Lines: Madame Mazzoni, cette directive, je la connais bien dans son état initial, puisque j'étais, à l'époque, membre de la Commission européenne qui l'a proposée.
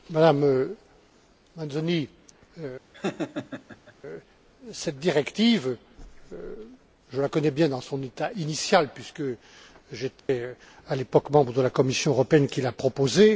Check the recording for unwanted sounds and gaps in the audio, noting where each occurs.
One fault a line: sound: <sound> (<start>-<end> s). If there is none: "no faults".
sound: laugh (2.9-3.9 s)
sound: dropout (10.2-10.3 s)